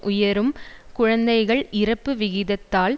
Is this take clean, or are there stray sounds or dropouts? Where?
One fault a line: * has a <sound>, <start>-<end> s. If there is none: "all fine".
all fine